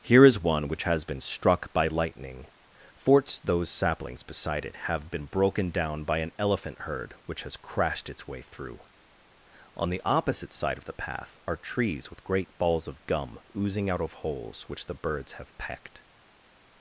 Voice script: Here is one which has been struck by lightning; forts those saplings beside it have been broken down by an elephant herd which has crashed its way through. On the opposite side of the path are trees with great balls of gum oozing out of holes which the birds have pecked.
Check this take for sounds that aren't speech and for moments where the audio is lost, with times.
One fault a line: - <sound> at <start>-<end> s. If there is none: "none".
none